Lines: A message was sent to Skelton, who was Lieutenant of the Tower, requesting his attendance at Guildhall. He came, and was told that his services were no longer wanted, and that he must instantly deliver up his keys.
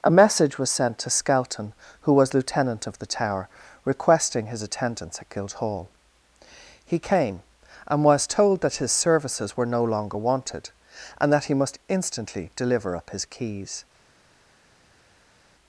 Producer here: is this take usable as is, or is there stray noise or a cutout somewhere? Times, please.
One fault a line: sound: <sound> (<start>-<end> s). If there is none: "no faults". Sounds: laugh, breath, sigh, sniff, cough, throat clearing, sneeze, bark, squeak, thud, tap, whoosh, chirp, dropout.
no faults